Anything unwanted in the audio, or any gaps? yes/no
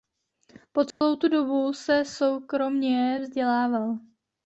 yes